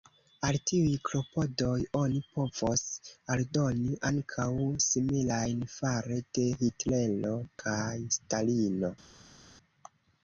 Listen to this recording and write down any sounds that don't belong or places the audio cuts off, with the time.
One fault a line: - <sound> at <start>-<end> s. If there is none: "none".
none